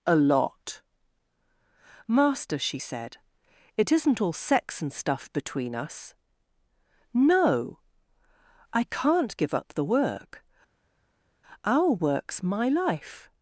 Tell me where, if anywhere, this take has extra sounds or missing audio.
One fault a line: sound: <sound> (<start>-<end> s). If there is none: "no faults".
no faults